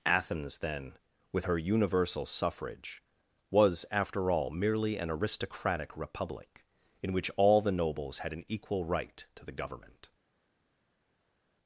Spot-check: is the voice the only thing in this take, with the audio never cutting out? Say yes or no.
yes